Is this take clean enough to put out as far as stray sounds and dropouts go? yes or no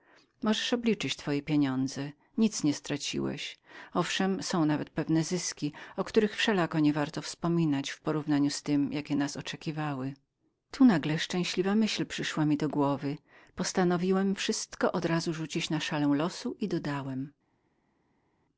yes